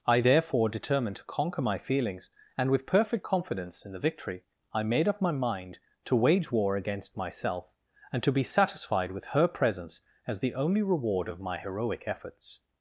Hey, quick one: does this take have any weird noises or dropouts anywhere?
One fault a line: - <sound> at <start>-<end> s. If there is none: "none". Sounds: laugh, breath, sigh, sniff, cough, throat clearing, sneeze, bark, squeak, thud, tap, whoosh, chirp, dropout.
none